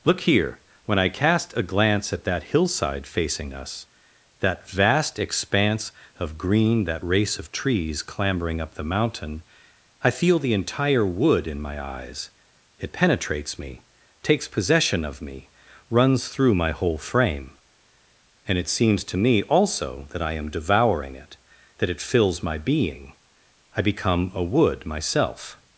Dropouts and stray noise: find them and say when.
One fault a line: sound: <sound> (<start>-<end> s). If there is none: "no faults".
no faults